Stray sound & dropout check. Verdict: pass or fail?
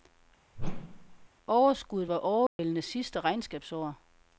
fail